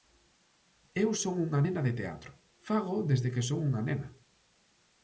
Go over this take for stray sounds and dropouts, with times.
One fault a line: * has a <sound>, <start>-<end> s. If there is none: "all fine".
all fine